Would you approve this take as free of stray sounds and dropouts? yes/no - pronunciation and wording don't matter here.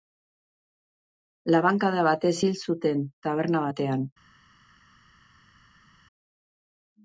yes